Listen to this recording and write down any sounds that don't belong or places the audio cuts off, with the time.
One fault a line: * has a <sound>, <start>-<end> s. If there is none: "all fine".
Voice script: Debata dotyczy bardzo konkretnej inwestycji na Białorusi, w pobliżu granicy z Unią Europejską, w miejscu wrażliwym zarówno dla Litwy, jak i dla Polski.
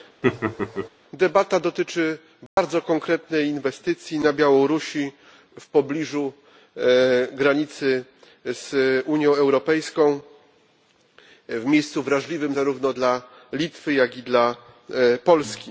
* has a laugh, 0.2-0.9 s
* has a dropout, 2.5-2.6 s